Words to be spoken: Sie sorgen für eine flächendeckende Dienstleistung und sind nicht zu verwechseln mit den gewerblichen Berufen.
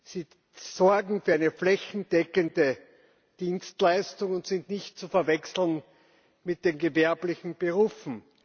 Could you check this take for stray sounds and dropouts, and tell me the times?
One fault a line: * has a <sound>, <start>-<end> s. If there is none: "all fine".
all fine